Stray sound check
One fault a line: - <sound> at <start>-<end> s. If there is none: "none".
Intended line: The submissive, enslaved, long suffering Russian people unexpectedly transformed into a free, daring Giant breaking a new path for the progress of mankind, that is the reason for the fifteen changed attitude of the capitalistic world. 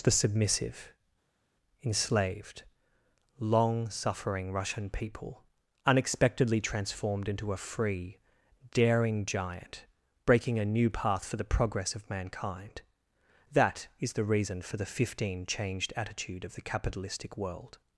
none